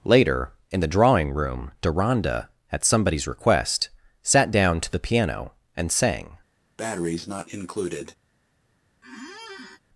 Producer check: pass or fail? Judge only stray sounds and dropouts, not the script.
fail